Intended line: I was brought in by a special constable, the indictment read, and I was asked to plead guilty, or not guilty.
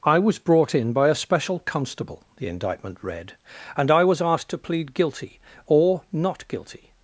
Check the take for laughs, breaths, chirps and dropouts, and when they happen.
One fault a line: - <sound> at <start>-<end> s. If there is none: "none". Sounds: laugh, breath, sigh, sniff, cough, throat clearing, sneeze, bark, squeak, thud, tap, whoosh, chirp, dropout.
none